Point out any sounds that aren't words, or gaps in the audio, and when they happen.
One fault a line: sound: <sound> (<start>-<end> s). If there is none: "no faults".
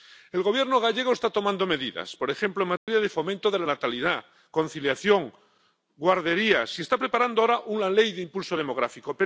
sound: dropout (2.8-2.9 s)